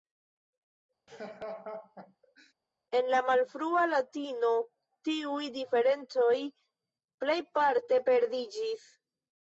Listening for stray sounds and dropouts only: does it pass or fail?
fail